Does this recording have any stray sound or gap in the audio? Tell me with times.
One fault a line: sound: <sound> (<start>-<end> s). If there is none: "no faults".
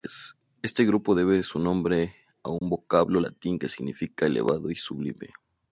sound: dropout (2.6-2.6 s)